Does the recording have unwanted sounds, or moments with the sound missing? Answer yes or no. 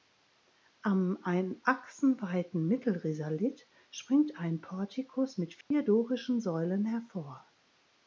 yes